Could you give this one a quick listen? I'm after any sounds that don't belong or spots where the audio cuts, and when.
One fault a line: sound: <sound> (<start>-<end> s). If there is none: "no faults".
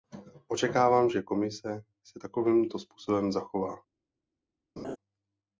sound: laugh (4.8-5.0 s)